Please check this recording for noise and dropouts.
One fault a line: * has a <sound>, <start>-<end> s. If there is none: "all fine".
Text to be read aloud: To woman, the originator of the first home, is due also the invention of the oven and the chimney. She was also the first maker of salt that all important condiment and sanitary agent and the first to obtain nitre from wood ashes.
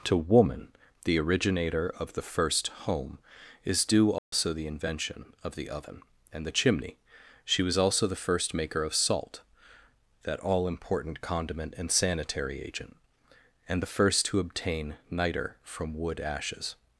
* has a dropout, 4.2-4.3 s